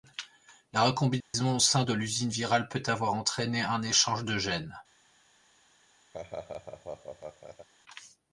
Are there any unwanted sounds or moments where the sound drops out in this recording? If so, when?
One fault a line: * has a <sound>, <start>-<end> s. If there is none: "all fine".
* has a dropout, 1.2-1.3 s
* has a laugh, 6.1-7.7 s